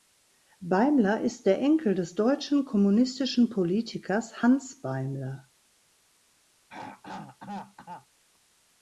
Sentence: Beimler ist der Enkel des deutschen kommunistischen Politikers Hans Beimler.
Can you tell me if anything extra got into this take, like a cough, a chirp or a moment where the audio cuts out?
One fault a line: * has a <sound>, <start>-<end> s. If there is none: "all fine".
* has a throat clearing, 6.7-8.1 s